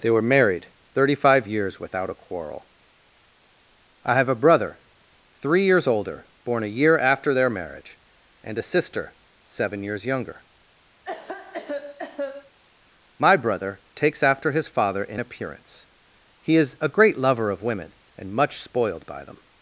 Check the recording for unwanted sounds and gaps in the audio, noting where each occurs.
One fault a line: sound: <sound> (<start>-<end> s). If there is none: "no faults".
sound: cough (11.0-12.6 s)